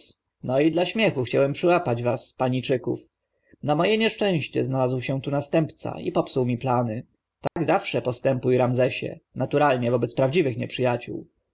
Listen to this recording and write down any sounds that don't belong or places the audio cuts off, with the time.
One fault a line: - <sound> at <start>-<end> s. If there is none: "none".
- dropout at 7.5-7.6 s